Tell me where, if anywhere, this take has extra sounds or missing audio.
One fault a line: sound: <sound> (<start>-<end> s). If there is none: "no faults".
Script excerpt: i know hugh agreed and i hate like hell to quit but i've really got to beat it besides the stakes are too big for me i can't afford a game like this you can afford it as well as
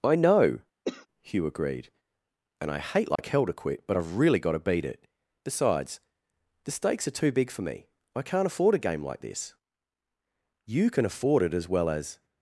sound: cough (0.9-1.1 s)
sound: dropout (3.2-3.2 s)